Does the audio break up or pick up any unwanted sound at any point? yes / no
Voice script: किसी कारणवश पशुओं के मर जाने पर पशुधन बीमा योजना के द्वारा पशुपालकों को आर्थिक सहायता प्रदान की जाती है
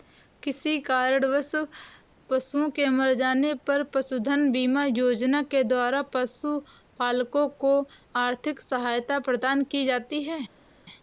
no